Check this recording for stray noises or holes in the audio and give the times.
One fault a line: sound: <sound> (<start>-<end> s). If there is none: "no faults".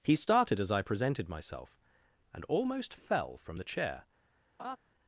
sound: laugh (4.6-4.8 s)